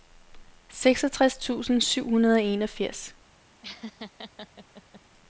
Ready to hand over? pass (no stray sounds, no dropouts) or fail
fail